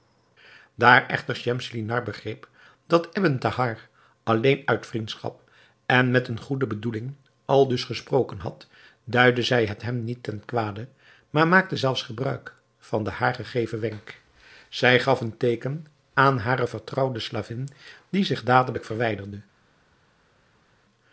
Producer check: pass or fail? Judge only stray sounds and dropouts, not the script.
pass